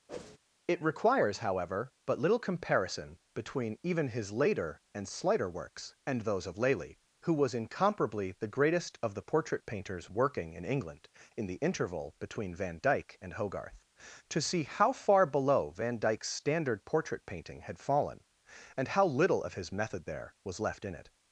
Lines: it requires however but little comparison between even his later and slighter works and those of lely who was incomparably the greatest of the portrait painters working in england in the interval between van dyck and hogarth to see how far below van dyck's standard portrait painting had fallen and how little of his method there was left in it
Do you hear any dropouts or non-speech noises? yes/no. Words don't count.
yes